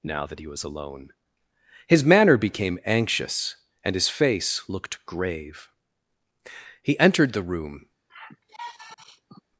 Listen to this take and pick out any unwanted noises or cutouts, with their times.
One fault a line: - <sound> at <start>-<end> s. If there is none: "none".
- sigh at 8.1-9.4 s